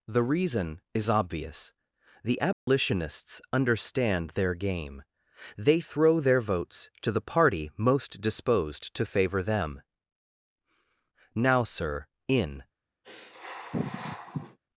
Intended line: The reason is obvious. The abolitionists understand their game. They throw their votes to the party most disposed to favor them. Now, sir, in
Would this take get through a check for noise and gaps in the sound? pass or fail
fail